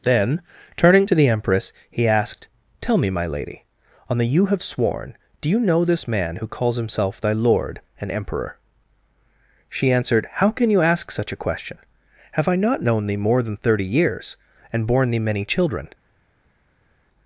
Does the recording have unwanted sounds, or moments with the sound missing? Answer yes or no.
no